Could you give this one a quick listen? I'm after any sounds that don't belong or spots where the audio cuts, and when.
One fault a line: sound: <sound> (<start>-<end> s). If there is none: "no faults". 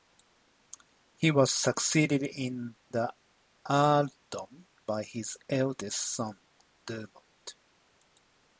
no faults